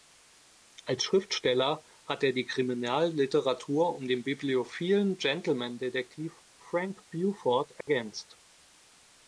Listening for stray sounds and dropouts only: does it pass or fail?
fail